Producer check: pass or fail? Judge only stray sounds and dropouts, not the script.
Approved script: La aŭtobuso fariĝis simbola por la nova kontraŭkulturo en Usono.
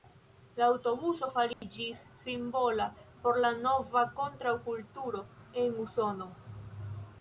fail